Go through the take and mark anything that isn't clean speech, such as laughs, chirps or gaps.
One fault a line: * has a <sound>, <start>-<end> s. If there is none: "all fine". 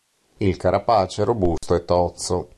* has a dropout, 1.6-1.6 s